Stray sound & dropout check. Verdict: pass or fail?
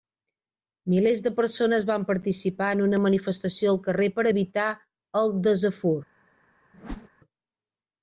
fail